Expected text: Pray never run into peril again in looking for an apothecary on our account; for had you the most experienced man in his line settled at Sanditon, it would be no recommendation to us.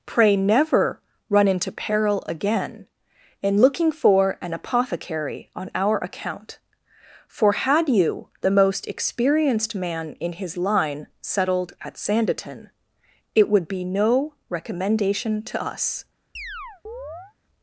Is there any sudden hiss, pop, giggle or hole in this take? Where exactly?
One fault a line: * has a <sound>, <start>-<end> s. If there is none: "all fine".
* has a chirp, 16.4-17.3 s